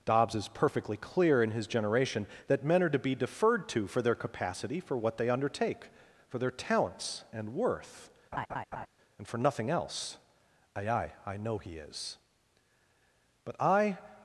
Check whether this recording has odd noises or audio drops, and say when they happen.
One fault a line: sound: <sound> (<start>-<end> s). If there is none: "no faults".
sound: laugh (8.3-8.9 s)